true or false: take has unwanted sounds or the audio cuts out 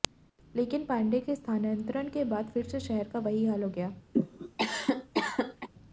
true